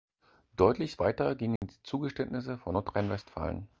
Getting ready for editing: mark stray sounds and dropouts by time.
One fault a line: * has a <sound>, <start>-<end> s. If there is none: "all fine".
* has a dropout, 1.6-1.6 s